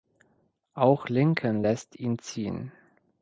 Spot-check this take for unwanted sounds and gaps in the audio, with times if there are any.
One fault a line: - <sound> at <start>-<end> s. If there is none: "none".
none